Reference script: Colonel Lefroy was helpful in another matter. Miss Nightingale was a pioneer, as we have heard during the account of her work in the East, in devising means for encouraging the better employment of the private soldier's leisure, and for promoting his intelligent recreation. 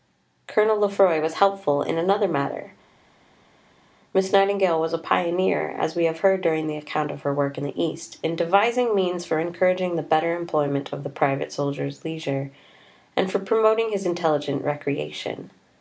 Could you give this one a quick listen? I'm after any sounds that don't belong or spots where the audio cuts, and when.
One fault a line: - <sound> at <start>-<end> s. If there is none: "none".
none